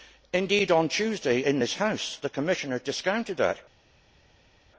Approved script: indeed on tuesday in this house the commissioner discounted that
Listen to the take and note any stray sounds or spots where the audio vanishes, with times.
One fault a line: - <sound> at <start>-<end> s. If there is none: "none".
none